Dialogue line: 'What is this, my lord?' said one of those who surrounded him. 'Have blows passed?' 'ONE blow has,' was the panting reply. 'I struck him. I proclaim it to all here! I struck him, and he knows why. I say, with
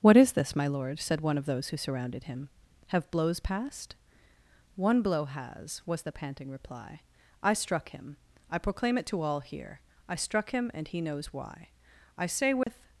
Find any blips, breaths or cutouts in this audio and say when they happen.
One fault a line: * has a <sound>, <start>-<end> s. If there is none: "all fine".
* has a dropout, 12.6-12.7 s